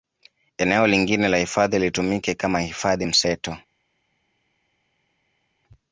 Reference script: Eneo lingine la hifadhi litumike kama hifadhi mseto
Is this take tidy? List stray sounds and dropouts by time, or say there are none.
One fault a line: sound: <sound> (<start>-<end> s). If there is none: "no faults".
no faults